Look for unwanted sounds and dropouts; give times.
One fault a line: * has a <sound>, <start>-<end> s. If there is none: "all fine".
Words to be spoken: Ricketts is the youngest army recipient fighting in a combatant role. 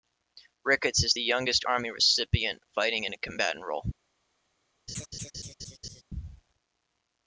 * has a laugh, 4.9-6.0 s